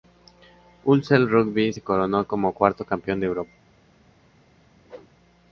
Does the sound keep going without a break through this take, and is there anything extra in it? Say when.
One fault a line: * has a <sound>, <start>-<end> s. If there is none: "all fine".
* has a whoosh, 4.8-5.1 s